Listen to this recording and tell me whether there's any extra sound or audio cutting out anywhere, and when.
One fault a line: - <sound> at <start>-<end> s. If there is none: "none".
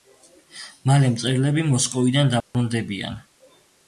- dropout at 2.4-2.5 s